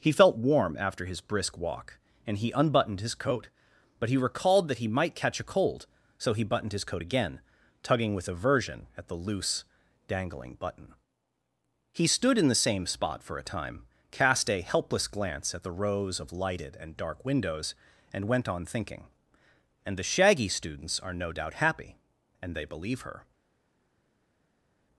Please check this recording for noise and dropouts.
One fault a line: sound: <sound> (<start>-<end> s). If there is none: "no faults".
no faults